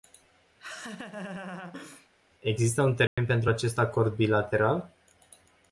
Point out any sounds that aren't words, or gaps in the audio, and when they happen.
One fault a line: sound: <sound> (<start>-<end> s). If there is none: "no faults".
sound: laugh (0.6-2.1 s)
sound: dropout (3.1-3.2 s)